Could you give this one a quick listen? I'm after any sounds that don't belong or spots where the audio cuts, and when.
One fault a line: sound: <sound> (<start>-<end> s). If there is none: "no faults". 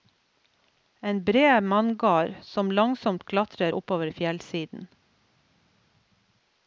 no faults